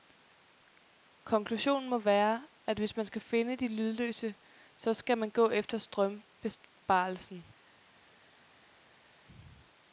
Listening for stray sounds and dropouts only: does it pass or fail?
pass